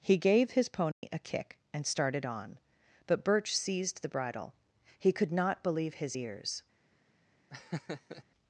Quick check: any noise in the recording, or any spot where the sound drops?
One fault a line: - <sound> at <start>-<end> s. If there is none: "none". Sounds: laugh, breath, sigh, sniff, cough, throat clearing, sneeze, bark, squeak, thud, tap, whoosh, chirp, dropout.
- dropout at 0.9-1.0 s
- laugh at 7.5-8.2 s